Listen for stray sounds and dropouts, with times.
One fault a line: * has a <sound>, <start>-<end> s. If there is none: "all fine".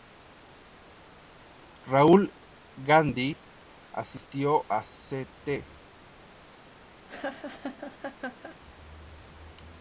* has a laugh, 7.1-8.6 s